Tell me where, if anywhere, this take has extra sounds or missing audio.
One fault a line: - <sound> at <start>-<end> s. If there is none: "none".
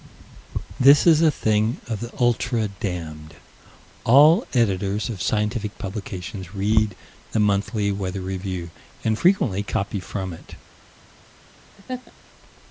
- laugh at 11.7-12.1 s